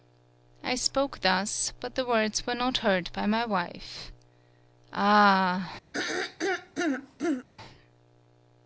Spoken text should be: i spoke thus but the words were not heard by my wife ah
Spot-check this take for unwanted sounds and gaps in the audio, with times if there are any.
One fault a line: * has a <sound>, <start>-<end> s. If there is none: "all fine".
* has a throat clearing, 5.9-7.5 s